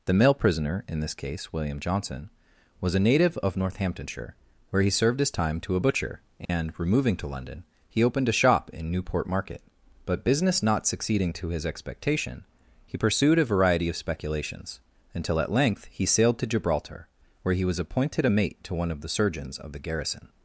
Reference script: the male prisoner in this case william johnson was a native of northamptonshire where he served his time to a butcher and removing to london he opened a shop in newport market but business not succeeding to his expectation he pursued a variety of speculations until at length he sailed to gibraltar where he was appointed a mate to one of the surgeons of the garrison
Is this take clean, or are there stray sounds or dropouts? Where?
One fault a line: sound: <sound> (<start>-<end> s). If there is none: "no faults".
sound: dropout (6.4-6.5 s)